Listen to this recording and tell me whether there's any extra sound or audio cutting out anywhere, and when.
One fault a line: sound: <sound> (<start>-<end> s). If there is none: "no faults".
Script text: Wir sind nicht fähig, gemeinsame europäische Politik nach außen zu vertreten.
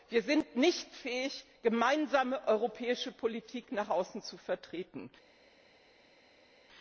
no faults